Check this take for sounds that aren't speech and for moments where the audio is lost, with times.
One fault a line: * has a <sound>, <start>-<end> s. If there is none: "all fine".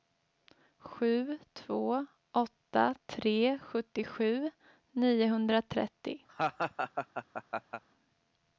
* has a laugh, 6.3-7.8 s